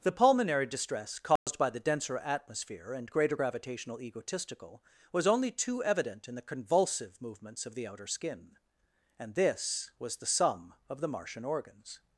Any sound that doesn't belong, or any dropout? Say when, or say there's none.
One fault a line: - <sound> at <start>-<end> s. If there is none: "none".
- dropout at 1.4-1.5 s